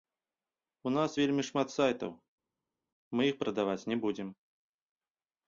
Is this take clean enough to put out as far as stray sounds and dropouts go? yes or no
yes